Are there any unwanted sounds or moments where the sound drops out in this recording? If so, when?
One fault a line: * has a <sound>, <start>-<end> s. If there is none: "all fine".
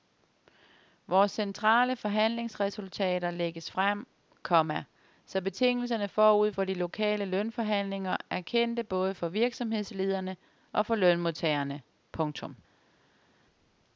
all fine